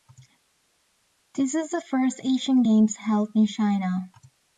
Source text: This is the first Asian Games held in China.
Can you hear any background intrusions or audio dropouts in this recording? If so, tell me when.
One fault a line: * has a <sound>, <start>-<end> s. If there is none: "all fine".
all fine